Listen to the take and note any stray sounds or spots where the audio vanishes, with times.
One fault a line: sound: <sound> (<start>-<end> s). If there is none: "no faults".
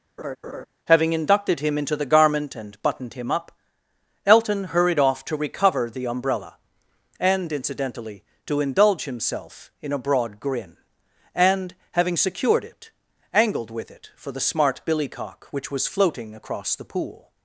sound: laugh (0.2-0.7 s)